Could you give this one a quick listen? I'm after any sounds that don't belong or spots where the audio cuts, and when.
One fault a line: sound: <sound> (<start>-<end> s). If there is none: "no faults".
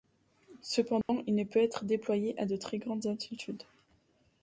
sound: dropout (1.0-1.1 s)